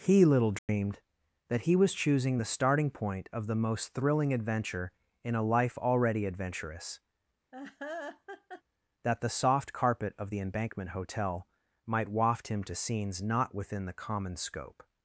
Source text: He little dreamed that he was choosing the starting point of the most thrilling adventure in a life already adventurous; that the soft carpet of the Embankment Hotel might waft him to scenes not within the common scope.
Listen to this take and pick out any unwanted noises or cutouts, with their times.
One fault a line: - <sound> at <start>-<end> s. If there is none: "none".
- dropout at 0.6-0.7 s
- laugh at 7.5-8.6 s